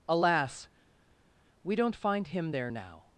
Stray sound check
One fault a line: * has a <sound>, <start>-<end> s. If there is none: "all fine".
all fine